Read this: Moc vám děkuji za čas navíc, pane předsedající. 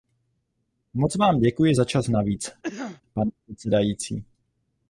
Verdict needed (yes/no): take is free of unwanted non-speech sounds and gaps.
no